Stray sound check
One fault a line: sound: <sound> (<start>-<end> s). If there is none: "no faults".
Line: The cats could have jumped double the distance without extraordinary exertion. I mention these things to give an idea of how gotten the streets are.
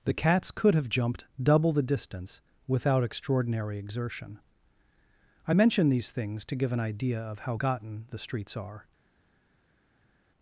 no faults